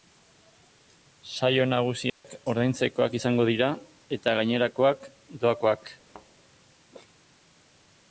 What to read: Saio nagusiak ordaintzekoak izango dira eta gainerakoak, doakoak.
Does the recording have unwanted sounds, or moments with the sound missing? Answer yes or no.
yes